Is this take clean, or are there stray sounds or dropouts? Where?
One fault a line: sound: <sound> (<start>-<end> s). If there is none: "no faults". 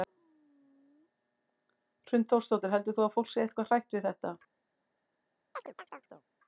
sound: chirp (5.5-6.3 s)